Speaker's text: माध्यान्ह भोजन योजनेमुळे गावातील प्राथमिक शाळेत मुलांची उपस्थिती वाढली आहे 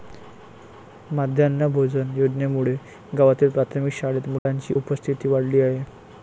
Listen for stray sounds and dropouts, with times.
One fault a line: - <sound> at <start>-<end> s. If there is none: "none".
- dropout at 4.4-4.5 s